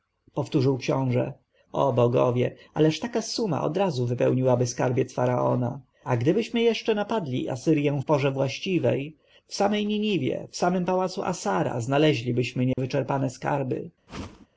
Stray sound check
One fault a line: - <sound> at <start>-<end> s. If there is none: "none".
- dropout at 12.7-12.8 s
- whoosh at 14.1-14.5 s